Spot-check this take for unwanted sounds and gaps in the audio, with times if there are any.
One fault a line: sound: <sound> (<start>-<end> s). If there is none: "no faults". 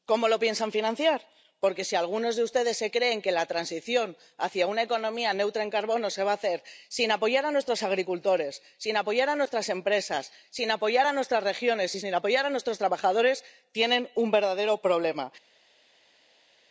no faults